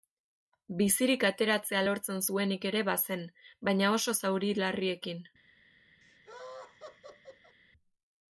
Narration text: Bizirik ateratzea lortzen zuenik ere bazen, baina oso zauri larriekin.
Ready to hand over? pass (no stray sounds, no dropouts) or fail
fail